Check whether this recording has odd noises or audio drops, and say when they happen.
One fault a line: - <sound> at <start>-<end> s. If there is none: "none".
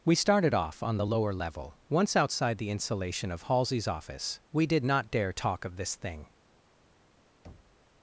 - thud at 7.4-7.8 s